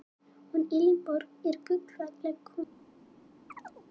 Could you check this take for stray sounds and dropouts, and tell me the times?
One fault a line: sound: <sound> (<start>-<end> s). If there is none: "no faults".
sound: chirp (3.5-3.9 s)